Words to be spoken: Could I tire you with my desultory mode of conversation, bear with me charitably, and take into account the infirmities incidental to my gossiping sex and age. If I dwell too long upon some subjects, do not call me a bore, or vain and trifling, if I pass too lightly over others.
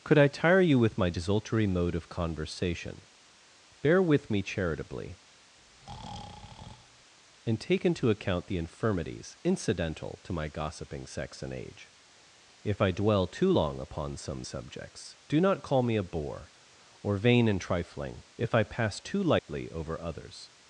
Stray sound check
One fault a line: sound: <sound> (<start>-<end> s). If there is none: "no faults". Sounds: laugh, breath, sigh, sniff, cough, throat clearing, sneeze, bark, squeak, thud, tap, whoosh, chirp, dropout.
sound: breath (5.6-7.1 s)
sound: dropout (19.4-19.5 s)